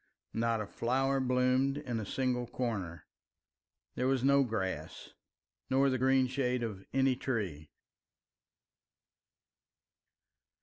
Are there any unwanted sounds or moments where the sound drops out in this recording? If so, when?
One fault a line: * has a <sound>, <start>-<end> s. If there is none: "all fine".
all fine